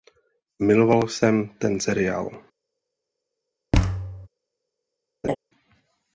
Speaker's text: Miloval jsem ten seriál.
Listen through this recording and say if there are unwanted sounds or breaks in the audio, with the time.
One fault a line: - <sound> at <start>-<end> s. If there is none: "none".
- thud at 3.7-4.3 s
- laugh at 5.2-5.4 s